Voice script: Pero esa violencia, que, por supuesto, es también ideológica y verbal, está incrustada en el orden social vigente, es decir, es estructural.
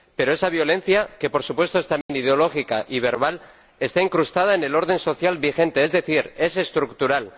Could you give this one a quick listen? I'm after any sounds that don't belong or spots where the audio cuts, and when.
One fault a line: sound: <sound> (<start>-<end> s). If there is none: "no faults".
sound: dropout (2.0-2.1 s)